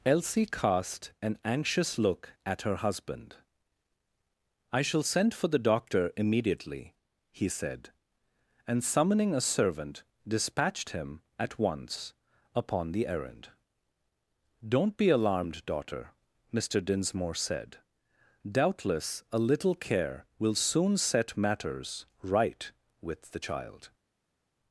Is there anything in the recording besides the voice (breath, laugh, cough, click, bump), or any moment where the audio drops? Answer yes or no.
no